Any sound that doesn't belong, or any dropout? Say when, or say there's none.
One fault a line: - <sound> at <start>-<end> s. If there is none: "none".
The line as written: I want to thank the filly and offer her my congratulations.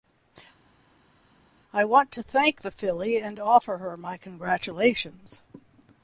none